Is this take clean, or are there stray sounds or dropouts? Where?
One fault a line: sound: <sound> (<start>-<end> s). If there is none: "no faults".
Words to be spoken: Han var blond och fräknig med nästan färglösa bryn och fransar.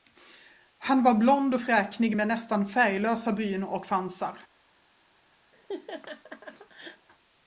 sound: laugh (5.5-7.1 s)